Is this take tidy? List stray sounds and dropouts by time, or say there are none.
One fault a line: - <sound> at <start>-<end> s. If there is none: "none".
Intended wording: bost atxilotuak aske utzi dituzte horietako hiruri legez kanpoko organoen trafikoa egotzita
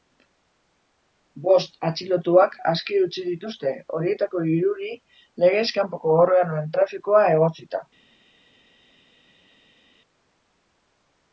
none